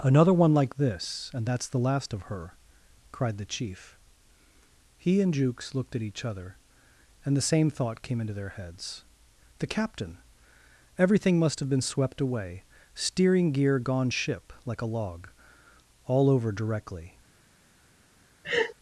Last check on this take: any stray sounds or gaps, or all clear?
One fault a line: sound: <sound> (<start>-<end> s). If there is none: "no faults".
sound: laugh (18.4-18.7 s)